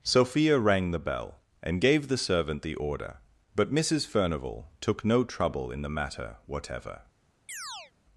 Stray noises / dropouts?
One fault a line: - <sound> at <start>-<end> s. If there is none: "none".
- chirp at 7.5-7.9 s